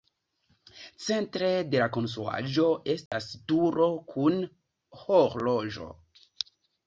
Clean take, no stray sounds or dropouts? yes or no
no